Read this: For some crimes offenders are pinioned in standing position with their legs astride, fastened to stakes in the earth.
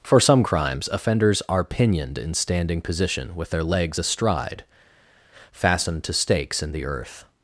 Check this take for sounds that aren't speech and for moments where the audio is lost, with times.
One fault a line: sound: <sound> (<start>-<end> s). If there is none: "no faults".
no faults